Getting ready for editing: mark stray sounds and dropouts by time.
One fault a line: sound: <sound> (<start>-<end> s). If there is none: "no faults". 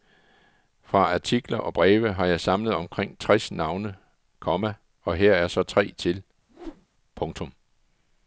sound: whoosh (6.5-6.9 s)